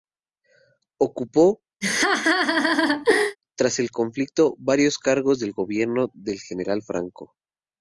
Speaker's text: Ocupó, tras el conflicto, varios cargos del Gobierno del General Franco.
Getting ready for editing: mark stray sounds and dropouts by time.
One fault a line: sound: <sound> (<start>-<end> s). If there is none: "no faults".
sound: laugh (1.8-3.4 s)